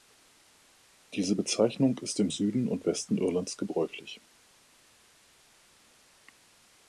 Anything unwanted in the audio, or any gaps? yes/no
no